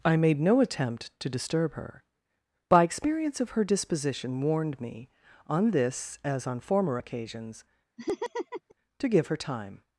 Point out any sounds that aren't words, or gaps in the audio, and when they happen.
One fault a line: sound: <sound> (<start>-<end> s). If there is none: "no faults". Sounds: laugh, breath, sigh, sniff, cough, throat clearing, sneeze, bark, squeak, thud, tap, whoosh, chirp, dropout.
sound: laugh (8.0-8.7 s)